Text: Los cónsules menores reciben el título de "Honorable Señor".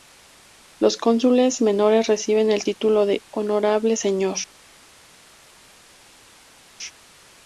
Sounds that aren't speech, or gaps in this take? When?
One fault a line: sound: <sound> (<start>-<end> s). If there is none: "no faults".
no faults